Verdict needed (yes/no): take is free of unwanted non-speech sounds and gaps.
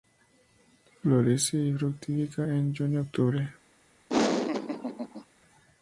no